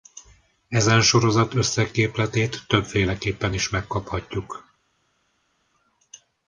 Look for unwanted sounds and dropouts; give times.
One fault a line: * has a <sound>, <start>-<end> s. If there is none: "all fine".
all fine